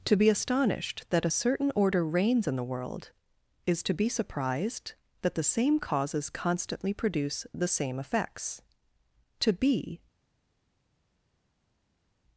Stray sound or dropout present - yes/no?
no